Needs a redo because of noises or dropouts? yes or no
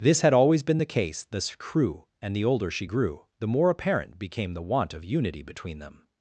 no